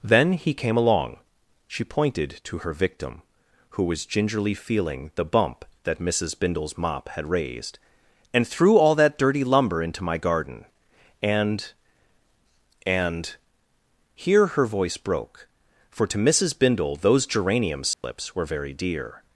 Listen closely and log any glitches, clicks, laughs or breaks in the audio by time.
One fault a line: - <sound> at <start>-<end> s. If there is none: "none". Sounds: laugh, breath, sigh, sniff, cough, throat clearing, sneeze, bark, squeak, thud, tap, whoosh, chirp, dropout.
- dropout at 17.9-18.0 s